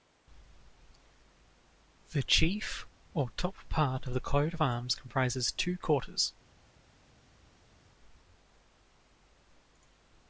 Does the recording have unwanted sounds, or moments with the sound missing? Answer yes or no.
no